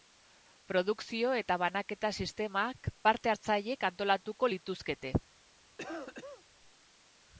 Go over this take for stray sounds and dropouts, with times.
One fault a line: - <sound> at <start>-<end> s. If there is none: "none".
- cough at 5.8-6.5 s